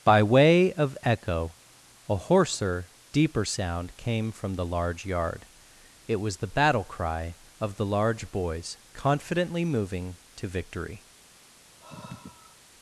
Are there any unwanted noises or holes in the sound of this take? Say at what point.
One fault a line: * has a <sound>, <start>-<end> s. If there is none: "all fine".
* has a sigh, 11.8-12.6 s